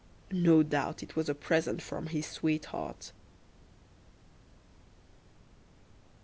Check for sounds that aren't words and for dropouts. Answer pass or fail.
pass